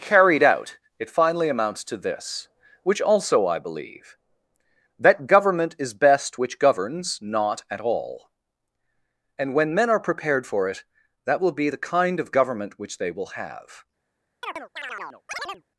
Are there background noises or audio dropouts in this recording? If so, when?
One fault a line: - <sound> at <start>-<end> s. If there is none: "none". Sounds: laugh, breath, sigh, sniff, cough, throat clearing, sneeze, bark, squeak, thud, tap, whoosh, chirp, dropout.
- chirp at 14.4-15.6 s